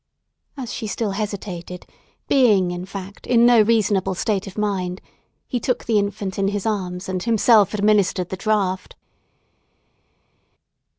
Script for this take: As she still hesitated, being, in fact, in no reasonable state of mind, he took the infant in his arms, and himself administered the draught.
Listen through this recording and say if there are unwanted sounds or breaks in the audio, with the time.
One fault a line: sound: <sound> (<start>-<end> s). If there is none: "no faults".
no faults